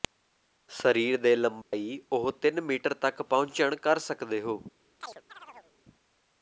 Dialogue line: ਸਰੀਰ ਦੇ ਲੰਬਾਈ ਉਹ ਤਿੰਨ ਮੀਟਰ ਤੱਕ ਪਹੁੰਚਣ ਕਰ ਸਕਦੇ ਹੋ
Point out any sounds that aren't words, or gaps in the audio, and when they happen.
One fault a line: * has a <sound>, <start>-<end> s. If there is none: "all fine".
* has a dropout, 1.6-1.7 s
* has a chirp, 5.0-5.7 s